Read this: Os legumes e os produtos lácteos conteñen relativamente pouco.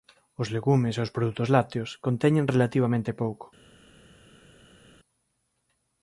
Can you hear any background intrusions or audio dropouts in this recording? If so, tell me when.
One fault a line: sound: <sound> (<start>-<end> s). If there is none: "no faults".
no faults